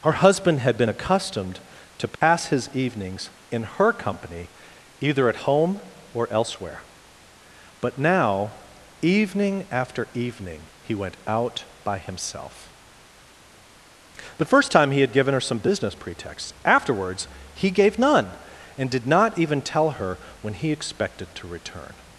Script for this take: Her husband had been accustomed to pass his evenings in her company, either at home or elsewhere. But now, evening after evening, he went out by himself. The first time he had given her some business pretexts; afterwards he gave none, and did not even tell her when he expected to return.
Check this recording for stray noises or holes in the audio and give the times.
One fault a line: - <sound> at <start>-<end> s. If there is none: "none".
- dropout at 2.1-2.2 s